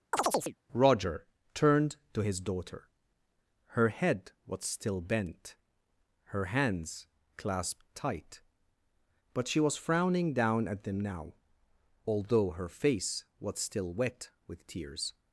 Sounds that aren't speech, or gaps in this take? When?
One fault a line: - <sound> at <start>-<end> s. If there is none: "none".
- chirp at 0.1-0.6 s